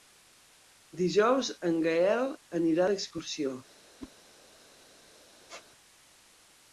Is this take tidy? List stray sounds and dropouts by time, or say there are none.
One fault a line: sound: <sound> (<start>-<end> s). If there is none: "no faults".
sound: whoosh (4.0-4.1 s)
sound: squeak (5.5-5.7 s)